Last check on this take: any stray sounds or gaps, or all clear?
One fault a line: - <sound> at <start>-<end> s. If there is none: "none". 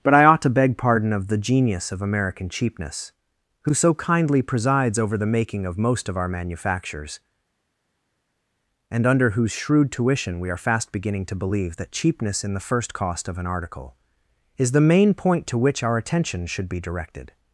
none